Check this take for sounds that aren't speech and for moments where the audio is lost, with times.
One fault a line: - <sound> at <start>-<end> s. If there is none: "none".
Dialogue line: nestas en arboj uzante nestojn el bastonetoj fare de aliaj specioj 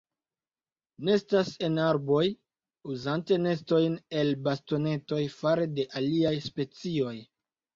none